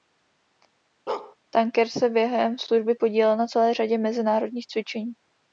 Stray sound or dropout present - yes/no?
yes